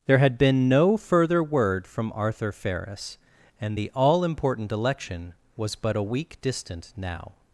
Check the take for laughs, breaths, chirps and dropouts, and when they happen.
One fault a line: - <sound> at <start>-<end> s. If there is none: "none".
none